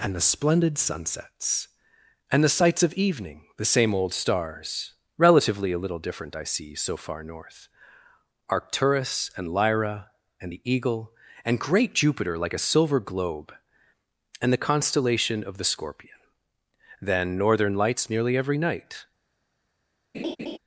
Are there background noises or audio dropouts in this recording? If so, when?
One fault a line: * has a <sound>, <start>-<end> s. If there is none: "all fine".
* has a laugh, 20.1-20.6 s